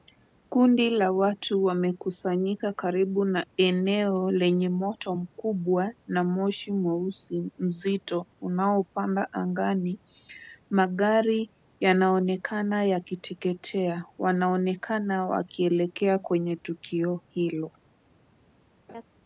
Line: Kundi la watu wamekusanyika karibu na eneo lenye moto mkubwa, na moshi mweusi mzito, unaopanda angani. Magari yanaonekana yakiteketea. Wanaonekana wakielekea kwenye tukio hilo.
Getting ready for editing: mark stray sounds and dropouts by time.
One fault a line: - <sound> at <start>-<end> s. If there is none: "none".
- laugh at 18.9-19.0 s